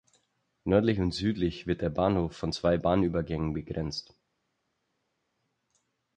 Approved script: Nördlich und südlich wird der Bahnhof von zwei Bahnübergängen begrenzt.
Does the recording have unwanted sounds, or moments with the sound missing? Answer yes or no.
no